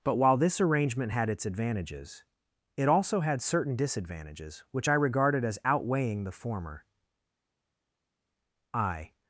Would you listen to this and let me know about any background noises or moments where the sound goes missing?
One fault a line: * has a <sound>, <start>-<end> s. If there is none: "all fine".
all fine